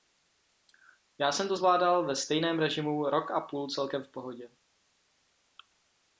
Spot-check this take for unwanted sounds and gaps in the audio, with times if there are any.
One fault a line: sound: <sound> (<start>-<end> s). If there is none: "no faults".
no faults